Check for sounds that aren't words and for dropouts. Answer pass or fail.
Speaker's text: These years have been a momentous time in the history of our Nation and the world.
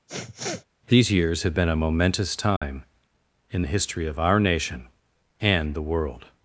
fail